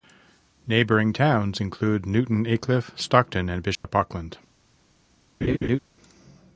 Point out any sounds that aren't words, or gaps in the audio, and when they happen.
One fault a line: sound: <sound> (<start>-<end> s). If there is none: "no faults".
sound: dropout (3.7-3.8 s)
sound: laugh (5.4-5.8 s)